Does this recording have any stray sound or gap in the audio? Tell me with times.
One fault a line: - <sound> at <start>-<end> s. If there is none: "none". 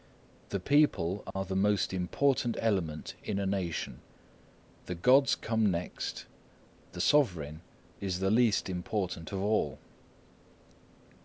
- dropout at 1.3-1.4 s